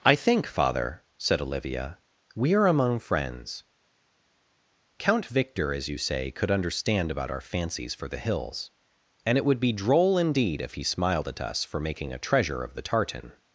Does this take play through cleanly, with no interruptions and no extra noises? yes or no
yes